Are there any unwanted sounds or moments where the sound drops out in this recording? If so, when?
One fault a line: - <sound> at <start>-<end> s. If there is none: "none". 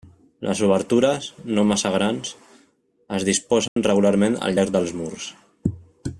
- dropout at 3.7-3.8 s